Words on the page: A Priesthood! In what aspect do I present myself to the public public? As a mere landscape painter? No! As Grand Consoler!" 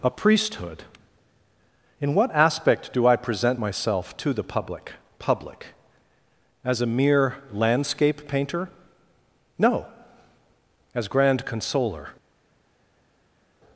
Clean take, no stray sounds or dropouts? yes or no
yes